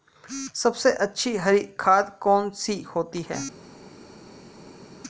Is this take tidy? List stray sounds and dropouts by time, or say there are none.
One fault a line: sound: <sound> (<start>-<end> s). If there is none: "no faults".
no faults